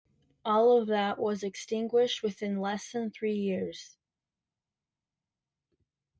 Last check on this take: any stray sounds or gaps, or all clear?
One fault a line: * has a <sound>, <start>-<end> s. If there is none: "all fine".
all fine